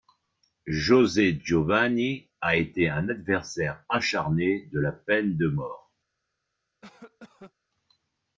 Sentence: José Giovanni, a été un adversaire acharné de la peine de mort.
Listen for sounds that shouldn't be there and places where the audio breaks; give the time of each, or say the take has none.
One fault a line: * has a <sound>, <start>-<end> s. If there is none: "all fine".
* has a cough, 6.8-7.5 s